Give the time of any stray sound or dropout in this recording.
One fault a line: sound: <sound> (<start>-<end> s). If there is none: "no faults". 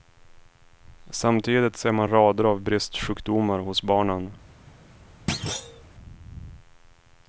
sound: thud (5.3-5.8 s)